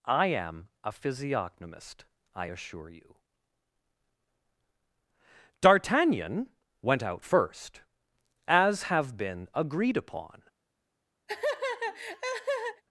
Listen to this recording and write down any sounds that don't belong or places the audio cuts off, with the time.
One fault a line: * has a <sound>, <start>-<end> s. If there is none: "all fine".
* has a laugh, 11.3-12.8 s